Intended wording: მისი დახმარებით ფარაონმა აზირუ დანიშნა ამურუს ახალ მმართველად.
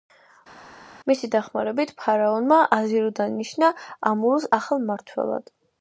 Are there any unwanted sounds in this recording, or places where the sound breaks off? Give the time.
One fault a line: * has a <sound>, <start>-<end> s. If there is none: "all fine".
all fine